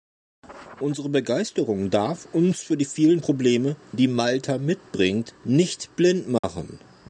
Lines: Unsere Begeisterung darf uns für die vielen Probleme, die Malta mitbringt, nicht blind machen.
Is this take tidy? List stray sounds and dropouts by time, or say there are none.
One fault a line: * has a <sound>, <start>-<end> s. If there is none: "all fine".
* has a dropout, 6.4-6.4 s